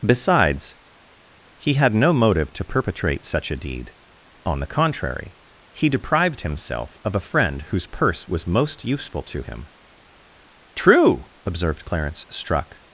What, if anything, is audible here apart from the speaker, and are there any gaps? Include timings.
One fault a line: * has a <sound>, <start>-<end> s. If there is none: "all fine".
all fine